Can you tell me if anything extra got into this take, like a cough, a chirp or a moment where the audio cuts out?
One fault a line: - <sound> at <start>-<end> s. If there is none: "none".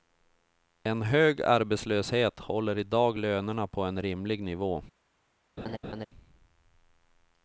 - laugh at 5.6-6.1 s